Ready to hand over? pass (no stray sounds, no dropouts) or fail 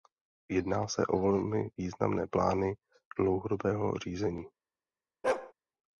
fail